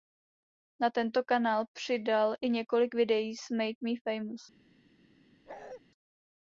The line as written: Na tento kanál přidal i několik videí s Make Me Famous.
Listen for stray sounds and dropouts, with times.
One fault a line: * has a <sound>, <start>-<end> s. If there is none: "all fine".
* has a bark, 5.5-5.8 s